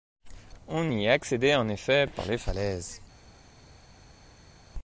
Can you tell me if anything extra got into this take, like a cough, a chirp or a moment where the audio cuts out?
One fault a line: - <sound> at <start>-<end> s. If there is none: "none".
none